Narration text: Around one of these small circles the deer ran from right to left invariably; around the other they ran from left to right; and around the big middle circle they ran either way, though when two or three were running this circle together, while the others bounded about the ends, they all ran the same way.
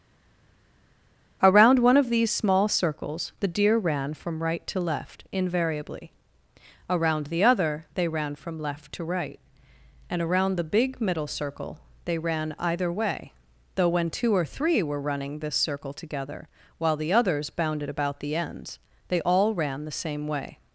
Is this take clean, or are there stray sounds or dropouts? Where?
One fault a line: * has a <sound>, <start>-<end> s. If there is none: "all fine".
all fine